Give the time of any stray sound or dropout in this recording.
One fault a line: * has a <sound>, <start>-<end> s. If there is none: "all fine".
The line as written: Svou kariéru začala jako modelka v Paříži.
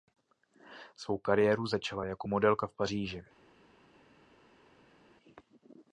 all fine